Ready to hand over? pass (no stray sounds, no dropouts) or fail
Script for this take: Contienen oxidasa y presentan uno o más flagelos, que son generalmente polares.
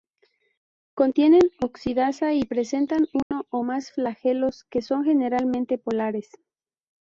fail